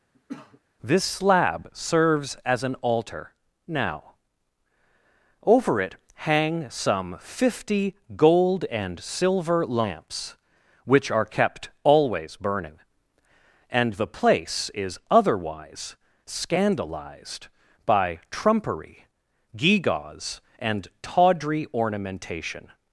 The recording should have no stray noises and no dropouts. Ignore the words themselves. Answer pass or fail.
fail